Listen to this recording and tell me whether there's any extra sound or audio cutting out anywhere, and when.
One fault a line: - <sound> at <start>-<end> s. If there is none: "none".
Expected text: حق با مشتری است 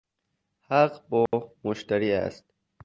- dropout at 1.3-1.3 s